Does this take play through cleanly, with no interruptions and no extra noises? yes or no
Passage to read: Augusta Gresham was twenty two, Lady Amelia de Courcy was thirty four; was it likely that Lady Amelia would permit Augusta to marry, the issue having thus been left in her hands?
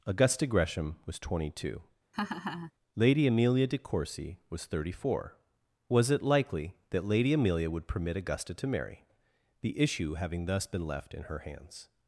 no